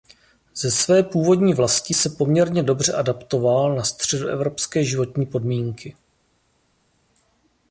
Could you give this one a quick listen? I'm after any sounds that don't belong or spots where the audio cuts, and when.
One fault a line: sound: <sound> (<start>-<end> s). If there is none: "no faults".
no faults